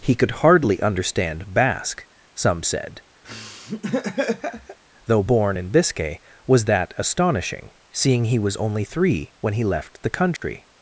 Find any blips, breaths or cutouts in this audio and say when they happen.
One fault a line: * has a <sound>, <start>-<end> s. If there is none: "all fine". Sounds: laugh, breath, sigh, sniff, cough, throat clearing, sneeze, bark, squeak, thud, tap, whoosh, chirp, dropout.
* has a laugh, 3.2-4.8 s
* has a dropout, 10.4-10.4 s